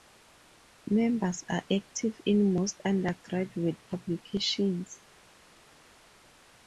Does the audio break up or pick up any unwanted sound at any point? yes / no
no